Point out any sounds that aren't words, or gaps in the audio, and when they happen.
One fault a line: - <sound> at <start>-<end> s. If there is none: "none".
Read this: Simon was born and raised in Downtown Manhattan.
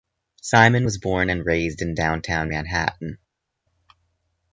none